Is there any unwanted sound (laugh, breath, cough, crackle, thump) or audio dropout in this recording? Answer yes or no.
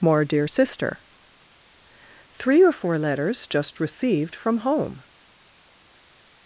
no